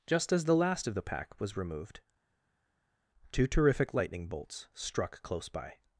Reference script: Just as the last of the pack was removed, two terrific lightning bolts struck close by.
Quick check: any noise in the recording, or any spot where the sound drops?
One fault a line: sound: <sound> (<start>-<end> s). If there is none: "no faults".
no faults